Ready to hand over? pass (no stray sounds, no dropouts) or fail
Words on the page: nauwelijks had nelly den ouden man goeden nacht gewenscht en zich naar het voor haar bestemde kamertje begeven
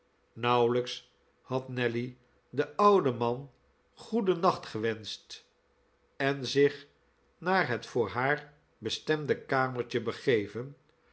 pass